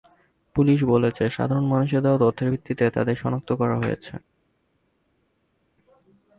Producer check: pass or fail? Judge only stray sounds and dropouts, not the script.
pass